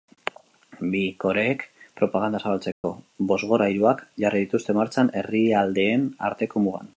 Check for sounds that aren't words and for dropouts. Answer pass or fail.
fail